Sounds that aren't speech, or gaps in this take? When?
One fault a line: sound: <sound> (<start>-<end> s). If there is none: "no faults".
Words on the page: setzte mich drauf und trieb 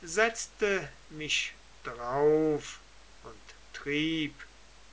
no faults